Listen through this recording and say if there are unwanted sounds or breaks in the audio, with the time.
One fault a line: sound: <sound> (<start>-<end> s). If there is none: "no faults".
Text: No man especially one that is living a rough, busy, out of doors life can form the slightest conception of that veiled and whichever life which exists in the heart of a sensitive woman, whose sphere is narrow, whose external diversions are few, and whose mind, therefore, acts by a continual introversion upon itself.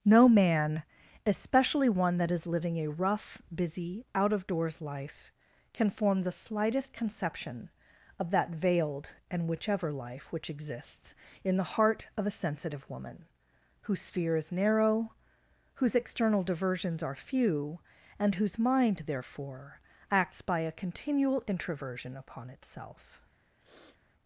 sound: sniff (23.6-24.0 s)